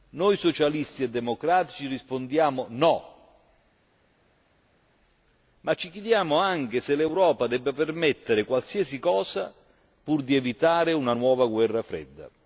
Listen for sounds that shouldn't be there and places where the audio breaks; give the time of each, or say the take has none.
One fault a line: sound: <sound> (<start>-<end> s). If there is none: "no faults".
no faults